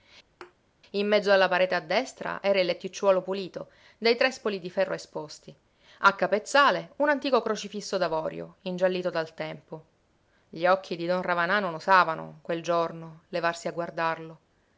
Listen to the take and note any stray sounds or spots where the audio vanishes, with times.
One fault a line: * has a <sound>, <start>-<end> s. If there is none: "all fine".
* has a thud, 0.4-0.6 s